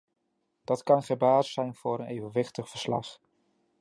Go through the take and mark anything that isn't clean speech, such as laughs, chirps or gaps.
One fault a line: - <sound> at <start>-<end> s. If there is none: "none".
none